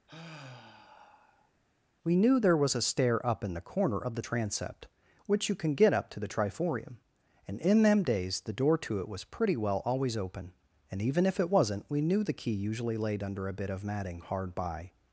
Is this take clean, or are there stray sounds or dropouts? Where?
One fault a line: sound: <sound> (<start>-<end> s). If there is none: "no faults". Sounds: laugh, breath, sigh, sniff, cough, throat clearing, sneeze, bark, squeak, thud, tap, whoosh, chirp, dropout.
sound: sigh (0.1-1.5 s)